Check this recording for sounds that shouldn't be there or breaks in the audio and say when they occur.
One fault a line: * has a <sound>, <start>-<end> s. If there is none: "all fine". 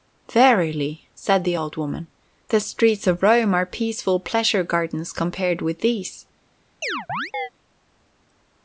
* has a chirp, 6.8-7.5 s